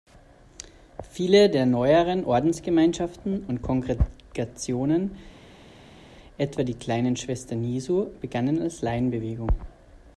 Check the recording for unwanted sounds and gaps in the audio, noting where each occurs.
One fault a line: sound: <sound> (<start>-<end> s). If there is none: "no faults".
no faults